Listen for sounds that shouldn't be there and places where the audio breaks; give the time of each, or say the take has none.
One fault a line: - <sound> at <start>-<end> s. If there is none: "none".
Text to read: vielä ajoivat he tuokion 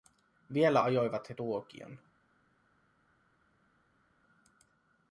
none